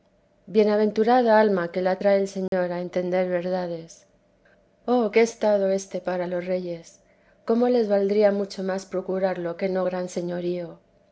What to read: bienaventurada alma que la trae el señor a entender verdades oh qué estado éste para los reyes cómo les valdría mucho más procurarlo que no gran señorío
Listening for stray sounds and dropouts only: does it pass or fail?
fail